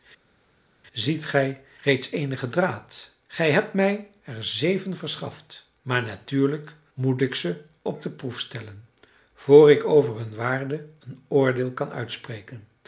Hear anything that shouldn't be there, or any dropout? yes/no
no